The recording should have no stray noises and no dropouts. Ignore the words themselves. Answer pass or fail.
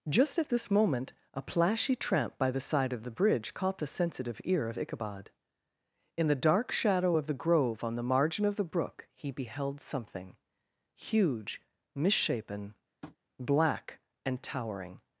fail